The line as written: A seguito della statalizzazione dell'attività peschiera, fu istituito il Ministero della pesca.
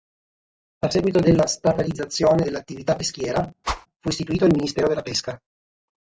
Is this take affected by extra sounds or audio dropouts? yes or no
yes